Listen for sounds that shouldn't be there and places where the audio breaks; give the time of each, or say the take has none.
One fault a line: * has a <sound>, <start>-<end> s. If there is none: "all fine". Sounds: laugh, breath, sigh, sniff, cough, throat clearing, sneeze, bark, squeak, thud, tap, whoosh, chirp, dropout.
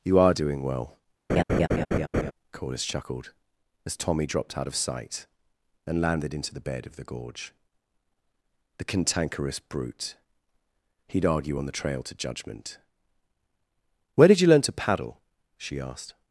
* has a laugh, 1.3-2.3 s